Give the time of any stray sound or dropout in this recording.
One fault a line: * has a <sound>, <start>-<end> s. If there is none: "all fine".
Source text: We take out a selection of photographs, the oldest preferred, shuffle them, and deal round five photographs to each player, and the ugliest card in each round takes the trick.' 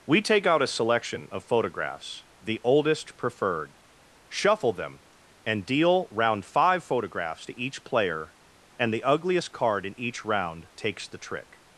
all fine